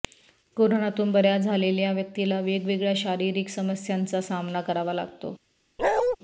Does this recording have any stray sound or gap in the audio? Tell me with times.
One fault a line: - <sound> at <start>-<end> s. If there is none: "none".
- bark at 5.8-6.2 s